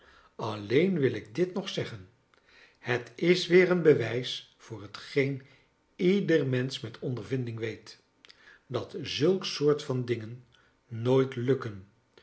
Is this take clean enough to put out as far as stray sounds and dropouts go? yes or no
yes